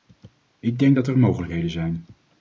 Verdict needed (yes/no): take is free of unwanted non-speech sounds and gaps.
yes